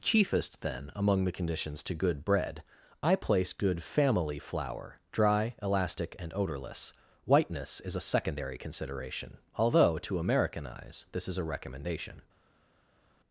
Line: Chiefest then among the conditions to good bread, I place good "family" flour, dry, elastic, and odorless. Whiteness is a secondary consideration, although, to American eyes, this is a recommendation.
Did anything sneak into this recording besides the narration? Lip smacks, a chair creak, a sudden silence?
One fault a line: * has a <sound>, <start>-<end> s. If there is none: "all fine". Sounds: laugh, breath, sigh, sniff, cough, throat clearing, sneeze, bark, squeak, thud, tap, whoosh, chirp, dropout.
all fine